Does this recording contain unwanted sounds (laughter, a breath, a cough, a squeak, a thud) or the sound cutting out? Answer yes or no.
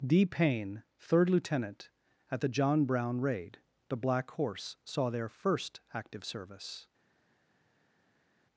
no